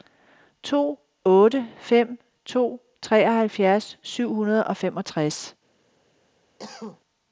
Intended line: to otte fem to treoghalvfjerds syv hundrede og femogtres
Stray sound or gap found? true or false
true